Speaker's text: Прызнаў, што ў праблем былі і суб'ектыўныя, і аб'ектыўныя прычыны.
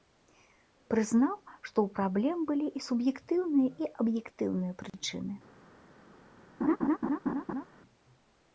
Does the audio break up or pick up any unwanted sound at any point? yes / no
yes